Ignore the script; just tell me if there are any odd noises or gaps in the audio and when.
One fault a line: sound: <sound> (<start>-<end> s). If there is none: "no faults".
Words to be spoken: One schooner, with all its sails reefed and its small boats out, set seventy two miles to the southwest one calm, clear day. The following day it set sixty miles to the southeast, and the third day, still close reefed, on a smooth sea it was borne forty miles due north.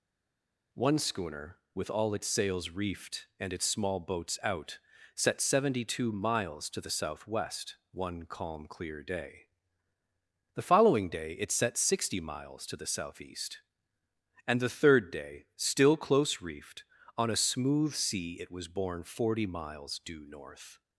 no faults